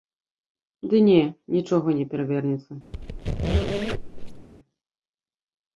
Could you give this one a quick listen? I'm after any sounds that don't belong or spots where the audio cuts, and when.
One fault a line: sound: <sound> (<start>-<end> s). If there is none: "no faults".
sound: squeak (2.9-4.5 s)